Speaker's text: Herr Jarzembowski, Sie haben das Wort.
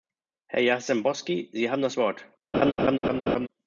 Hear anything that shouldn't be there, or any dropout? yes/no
yes